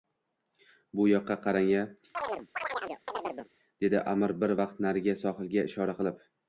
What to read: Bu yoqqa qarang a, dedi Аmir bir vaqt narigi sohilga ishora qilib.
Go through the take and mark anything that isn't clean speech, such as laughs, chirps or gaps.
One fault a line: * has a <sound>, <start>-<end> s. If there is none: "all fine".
* has a chirp, 2.1-3.5 s